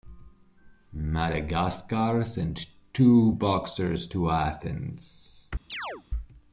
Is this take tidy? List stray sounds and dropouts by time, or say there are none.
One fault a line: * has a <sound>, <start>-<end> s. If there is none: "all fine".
* has a chirp, 5.7-6.0 s